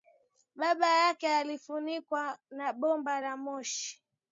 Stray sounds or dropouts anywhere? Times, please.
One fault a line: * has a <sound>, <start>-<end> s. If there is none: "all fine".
all fine